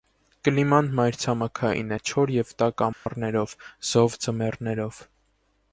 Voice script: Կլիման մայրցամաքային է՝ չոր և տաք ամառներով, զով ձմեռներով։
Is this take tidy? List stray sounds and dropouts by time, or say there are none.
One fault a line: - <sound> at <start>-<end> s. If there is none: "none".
- dropout at 2.9-3.1 s